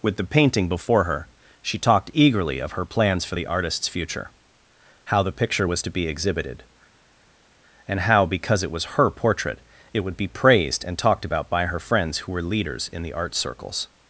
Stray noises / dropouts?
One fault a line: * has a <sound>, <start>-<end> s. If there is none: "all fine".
all fine